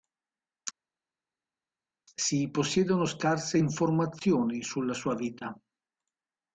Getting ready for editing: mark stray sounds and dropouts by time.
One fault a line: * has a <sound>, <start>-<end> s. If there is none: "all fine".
all fine